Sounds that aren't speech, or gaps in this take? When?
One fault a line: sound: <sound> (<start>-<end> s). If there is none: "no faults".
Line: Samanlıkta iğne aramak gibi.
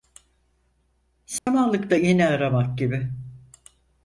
sound: dropout (1.4-1.5 s)